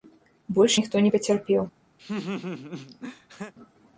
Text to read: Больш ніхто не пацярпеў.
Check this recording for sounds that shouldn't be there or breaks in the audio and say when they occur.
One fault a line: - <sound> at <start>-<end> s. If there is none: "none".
- laugh at 2.0-3.5 s